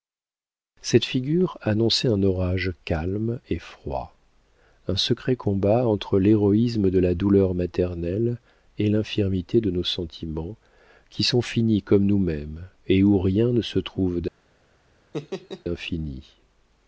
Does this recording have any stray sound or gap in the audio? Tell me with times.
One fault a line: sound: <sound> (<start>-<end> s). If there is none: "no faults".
sound: laugh (15.1-15.6 s)